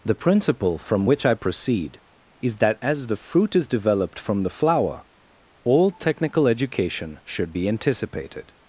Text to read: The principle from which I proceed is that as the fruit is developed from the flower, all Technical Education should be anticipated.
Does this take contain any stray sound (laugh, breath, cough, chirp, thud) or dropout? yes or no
no